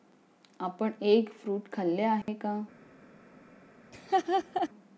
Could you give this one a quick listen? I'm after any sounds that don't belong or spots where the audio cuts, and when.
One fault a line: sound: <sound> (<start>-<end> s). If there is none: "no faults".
sound: dropout (2.2-2.3 s)
sound: laugh (3.9-4.7 s)